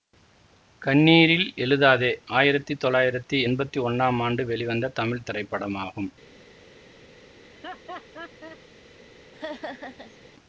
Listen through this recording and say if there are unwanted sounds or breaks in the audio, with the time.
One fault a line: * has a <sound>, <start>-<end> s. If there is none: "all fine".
* has a laugh, 7.4-8.6 s
* has a laugh, 9.3-10.2 s